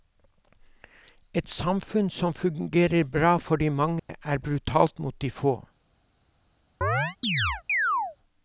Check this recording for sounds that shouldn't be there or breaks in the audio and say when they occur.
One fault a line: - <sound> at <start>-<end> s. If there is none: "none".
- dropout at 4.0-4.1 s
- chirp at 6.8-8.2 s